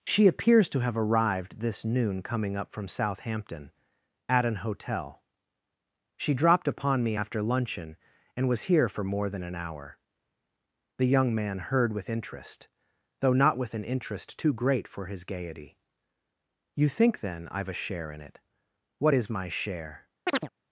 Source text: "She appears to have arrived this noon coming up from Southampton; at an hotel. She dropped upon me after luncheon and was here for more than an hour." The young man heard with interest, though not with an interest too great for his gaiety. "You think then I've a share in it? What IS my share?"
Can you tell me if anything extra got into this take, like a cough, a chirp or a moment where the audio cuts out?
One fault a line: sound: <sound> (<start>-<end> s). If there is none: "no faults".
sound: chirp (20.3-20.5 s)